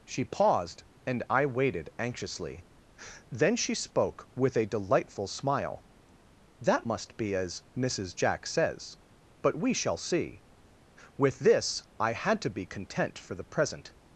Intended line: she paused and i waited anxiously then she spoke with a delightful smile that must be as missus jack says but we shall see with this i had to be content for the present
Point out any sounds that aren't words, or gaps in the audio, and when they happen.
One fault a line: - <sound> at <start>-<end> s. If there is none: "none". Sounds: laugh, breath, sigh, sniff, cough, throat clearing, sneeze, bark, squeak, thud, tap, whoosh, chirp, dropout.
none